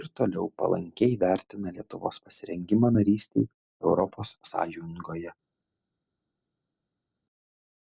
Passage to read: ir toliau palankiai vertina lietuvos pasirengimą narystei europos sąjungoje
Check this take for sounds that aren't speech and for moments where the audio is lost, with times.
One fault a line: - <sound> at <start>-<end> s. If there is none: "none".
none